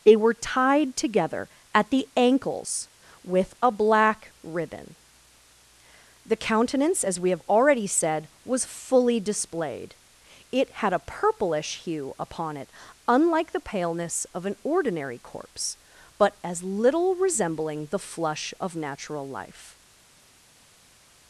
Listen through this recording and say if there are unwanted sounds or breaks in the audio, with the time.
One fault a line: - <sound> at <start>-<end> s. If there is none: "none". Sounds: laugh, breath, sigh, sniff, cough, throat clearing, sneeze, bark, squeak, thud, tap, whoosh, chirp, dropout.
none